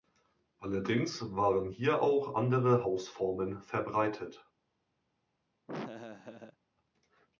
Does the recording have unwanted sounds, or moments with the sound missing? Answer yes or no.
yes